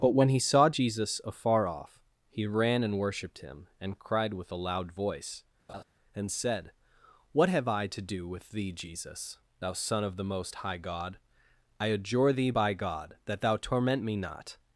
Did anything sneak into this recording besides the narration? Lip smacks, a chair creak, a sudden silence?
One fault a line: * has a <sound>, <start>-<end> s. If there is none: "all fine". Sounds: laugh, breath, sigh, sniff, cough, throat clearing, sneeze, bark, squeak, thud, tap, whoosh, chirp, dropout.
* has a laugh, 5.7-5.8 s